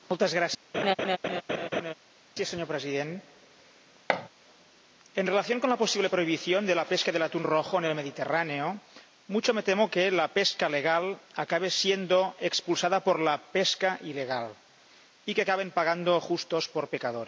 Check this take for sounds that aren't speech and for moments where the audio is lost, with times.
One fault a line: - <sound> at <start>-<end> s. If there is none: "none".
- laugh at 0.7-1.9 s
- thud at 4.1-4.3 s